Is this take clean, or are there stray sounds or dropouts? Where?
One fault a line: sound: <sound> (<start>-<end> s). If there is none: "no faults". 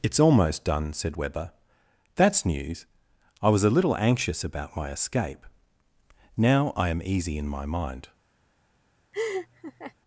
sound: laugh (9.1-9.9 s)